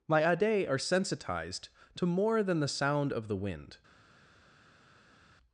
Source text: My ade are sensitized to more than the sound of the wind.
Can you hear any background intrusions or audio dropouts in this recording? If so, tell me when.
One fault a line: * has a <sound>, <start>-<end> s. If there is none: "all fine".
all fine